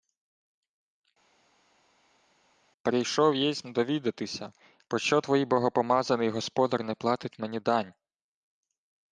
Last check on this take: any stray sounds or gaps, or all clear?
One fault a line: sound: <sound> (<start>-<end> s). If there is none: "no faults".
no faults